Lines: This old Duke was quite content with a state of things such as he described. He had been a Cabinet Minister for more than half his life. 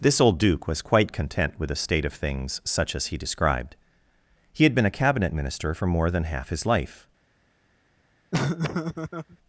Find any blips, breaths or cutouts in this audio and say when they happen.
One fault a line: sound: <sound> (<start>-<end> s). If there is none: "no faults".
sound: laugh (8.3-9.4 s)